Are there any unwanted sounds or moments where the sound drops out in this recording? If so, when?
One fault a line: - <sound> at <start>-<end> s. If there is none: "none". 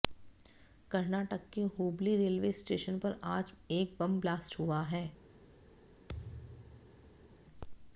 - thud at 6.1-7.4 s